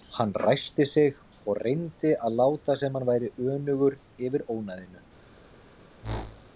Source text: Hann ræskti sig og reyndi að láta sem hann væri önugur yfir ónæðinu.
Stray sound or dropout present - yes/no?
yes